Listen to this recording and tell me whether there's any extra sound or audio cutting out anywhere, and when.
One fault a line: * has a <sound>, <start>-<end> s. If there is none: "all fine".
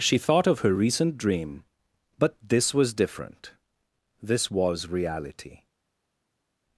all fine